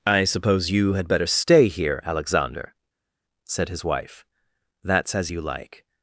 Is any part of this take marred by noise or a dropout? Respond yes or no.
no